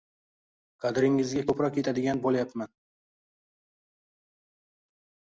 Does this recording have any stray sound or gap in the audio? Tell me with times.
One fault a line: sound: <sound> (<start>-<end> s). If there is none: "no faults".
no faults